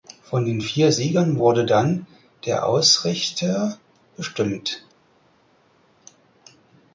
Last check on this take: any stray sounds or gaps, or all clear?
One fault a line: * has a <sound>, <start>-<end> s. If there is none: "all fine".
all fine